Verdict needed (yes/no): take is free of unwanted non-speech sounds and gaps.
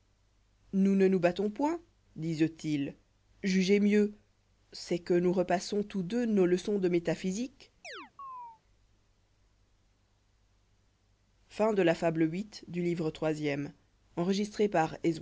no